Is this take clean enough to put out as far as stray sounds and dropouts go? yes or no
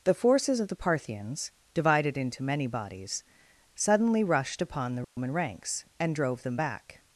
no